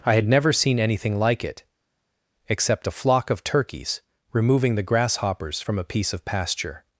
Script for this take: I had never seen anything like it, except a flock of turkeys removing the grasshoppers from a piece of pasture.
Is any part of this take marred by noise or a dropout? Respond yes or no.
no